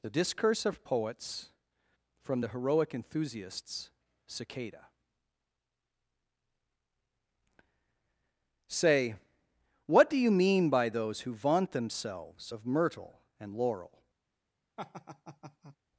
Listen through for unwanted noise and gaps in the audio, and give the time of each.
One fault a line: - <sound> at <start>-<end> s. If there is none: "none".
- laugh at 14.8-15.8 s